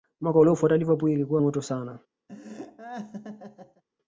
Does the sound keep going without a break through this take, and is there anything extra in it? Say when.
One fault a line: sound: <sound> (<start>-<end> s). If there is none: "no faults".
sound: laugh (2.3-3.8 s)